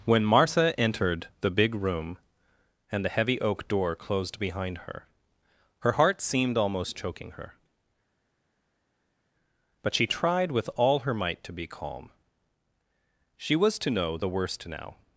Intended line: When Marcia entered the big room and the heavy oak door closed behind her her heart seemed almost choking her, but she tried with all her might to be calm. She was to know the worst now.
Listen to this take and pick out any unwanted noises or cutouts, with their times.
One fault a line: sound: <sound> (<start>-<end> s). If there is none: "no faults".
no faults